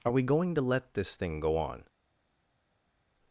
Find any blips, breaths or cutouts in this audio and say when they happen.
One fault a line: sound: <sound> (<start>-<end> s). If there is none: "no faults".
no faults